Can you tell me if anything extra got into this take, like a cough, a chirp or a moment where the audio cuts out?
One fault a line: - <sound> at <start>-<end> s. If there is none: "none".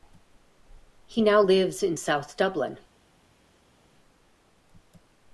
none